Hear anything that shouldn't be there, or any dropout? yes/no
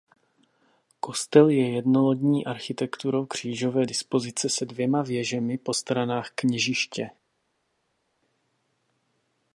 no